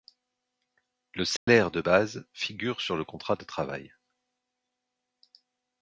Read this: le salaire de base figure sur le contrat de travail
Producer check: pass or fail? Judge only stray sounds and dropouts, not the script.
fail